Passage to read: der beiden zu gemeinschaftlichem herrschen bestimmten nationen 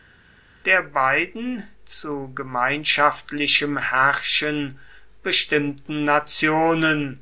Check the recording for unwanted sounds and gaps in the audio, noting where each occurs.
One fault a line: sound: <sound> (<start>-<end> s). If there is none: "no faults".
no faults